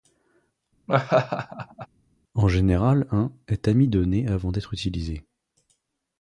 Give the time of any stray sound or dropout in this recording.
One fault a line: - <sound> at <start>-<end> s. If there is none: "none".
- laugh at 0.9-1.9 s